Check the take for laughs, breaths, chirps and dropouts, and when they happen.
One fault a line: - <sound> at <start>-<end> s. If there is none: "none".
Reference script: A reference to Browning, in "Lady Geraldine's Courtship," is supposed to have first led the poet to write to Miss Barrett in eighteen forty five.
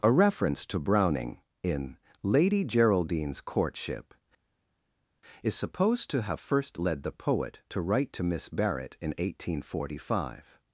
none